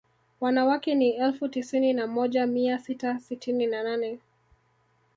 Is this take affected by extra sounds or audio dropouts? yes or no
no